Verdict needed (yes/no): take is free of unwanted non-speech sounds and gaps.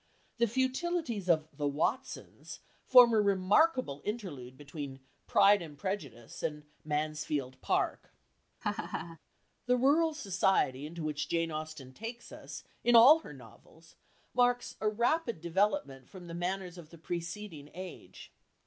no